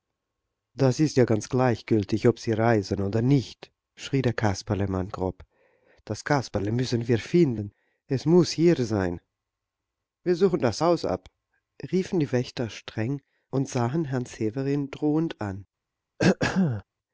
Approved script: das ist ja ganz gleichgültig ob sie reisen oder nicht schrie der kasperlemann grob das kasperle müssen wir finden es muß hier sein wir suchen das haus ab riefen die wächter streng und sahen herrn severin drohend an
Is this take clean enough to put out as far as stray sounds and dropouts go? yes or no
no